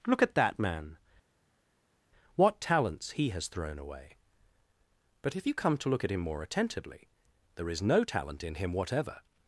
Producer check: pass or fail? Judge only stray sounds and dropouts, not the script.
pass